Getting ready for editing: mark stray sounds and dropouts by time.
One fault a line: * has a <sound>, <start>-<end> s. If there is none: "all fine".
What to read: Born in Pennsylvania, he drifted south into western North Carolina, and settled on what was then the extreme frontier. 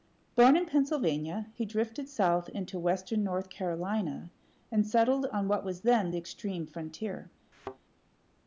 * has a thud, 7.5-7.8 s